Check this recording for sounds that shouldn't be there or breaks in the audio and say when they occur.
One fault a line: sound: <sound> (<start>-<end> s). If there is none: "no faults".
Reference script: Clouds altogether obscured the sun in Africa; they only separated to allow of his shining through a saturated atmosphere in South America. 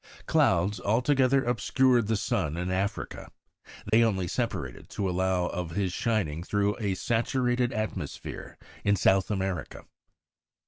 sound: dropout (3.9-3.9 s)